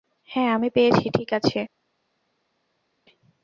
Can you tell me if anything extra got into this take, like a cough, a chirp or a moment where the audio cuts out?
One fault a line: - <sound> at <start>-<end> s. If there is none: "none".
none